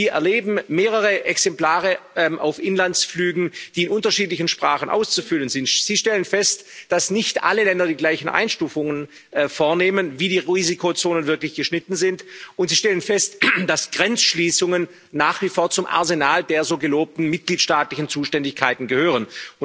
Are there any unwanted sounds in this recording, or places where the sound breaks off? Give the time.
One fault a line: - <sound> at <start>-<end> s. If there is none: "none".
none